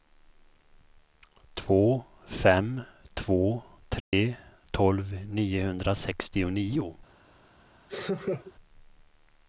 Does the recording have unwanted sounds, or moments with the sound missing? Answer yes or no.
yes